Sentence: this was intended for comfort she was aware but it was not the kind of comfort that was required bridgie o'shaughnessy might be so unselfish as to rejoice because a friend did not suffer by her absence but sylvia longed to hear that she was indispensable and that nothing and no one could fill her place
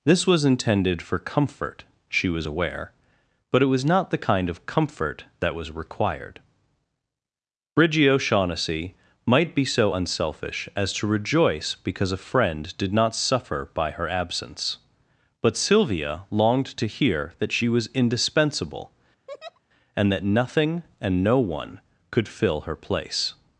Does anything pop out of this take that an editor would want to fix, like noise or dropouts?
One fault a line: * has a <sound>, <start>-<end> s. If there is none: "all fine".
* has a laugh, 19.3-19.6 s